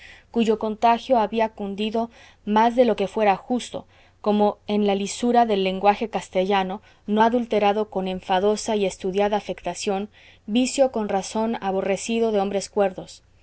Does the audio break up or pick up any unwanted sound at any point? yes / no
no